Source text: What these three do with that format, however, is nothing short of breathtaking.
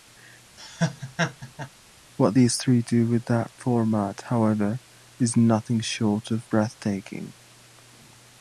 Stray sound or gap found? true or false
true